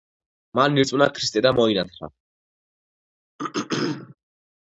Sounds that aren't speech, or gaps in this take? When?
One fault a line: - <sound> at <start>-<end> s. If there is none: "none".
- throat clearing at 3.4-4.2 s